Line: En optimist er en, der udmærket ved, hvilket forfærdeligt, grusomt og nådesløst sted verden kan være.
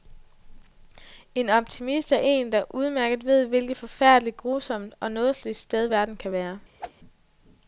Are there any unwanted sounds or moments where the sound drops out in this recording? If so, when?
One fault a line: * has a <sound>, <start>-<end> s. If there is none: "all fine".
* has a whoosh, 6.8-6.9 s